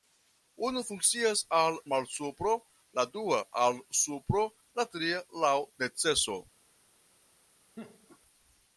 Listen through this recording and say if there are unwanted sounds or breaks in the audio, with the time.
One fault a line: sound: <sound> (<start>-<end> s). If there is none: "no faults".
sound: laugh (7.8-8.2 s)